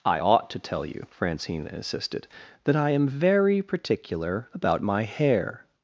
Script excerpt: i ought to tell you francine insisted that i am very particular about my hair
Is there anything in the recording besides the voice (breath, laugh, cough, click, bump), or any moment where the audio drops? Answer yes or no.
no